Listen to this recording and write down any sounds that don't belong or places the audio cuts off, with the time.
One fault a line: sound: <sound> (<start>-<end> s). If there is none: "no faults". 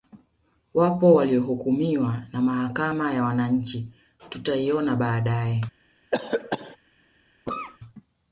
sound: cough (6.1-6.8 s)
sound: cough (7.5-7.8 s)